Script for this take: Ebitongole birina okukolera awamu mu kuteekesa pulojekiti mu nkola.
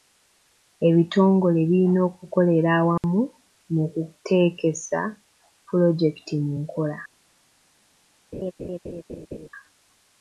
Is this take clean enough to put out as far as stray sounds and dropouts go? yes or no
no